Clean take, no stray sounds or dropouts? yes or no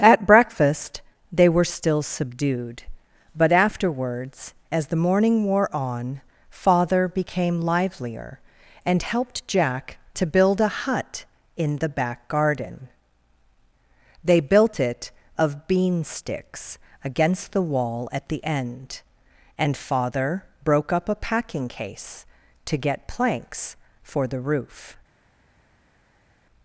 yes